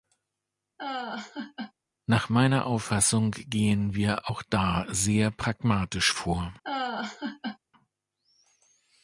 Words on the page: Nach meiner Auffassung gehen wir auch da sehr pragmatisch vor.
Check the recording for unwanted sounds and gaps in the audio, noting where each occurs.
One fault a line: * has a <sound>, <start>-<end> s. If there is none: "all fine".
* has a laugh, 0.8-1.7 s
* has a laugh, 6.6-7.6 s